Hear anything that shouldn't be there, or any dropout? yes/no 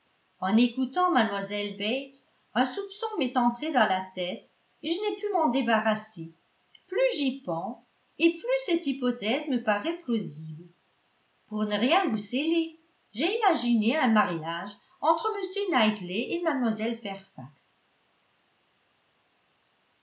no